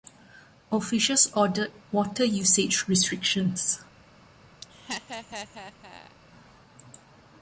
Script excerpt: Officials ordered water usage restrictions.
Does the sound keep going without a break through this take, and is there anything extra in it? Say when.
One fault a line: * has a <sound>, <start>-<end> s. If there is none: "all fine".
* has a laugh, 4.6-6.2 s